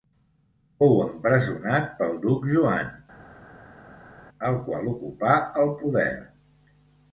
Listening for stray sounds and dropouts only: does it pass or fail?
pass